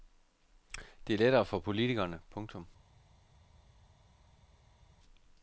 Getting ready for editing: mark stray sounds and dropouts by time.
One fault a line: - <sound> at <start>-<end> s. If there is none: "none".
none